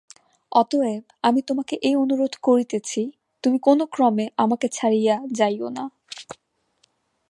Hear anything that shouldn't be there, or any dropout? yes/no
no